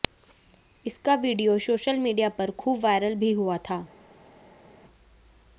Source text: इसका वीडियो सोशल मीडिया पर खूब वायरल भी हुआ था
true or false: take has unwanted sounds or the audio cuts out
false